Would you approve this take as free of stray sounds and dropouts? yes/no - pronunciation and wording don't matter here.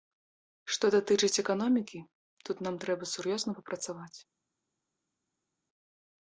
yes